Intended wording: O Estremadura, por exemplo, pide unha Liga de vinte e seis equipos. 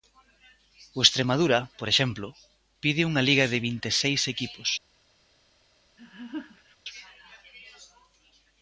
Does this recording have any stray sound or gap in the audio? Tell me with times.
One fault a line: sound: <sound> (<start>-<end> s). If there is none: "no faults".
sound: laugh (6.0-6.8 s)